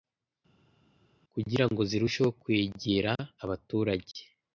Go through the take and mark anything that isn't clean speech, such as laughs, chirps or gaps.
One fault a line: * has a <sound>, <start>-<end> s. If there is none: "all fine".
all fine